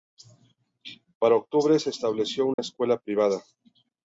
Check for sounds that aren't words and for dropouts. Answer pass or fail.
fail